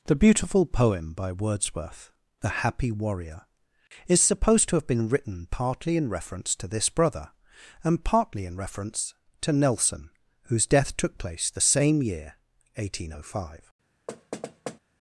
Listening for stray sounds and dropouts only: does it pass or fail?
fail